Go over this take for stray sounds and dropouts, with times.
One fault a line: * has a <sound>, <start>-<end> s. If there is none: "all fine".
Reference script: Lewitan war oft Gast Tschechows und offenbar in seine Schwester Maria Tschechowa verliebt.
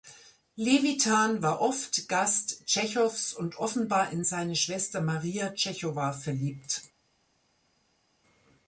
all fine